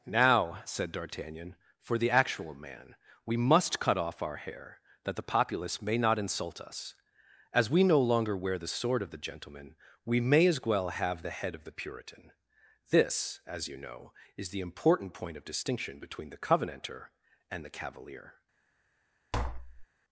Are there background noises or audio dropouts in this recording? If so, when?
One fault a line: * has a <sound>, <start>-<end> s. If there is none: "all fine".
* has a tap, 19.3-19.9 s